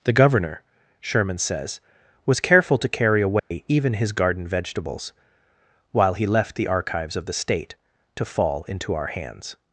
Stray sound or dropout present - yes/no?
yes